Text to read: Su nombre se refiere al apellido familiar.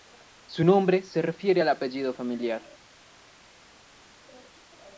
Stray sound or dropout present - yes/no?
no